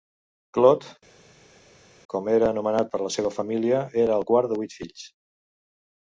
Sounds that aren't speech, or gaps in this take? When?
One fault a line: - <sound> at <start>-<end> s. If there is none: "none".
none